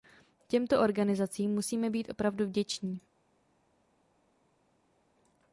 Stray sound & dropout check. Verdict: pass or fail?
pass